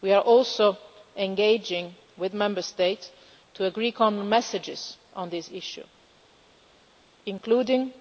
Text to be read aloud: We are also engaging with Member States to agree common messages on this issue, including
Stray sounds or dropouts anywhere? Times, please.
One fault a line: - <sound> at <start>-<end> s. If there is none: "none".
none